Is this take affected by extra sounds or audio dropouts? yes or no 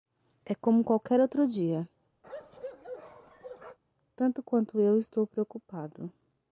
yes